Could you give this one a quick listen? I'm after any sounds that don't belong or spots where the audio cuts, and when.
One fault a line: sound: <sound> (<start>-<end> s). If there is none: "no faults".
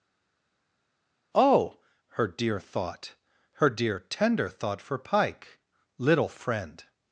no faults